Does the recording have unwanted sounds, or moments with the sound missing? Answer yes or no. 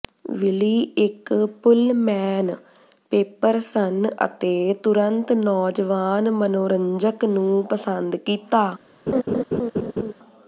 yes